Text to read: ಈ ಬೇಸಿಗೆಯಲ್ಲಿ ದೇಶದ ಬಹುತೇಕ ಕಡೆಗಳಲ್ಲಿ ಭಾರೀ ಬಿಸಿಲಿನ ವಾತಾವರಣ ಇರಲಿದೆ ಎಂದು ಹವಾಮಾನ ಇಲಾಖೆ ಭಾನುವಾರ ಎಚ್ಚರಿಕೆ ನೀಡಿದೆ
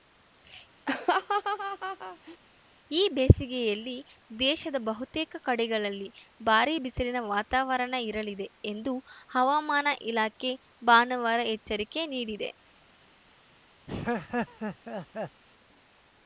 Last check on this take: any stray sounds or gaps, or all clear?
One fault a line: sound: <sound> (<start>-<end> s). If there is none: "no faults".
sound: laugh (0.9-2.4 s)
sound: laugh (13.9-15.4 s)